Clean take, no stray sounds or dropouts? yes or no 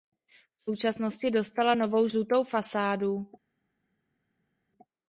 yes